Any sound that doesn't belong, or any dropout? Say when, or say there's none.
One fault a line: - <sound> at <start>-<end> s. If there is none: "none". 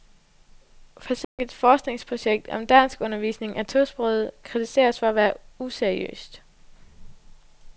- dropout at 1.2-1.4 s